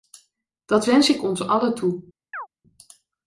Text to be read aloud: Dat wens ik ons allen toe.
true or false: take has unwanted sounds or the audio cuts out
true